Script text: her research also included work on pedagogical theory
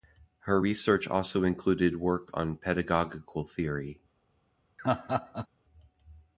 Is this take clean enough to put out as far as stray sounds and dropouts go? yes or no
no